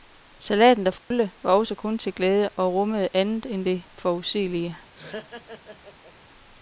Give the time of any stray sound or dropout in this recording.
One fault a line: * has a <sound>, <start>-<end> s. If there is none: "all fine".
* has a dropout, 1.0-1.1 s
* has a laugh, 4.9-6.1 s